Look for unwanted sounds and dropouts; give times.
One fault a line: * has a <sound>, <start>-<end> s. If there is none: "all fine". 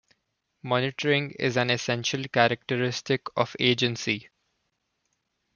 all fine